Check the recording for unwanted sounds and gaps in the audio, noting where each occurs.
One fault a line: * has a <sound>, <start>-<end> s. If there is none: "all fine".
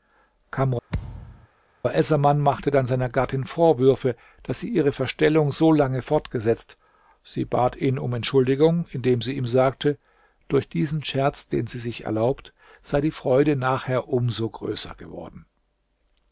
* has a thud, 0.9-1.5 s